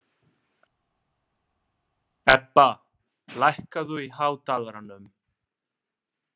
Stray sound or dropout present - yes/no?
no